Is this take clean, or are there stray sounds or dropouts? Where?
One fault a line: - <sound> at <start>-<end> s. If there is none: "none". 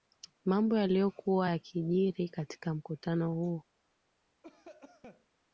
- cough at 4.4-5.3 s